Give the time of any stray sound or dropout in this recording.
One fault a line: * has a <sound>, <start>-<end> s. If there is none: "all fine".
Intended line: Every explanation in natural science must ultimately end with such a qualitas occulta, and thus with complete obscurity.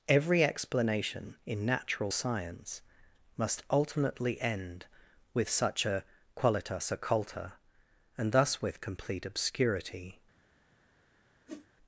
* has a whoosh, 11.5-11.7 s